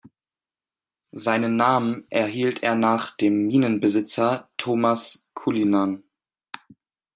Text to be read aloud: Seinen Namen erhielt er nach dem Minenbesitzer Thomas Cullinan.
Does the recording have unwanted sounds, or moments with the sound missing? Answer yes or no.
no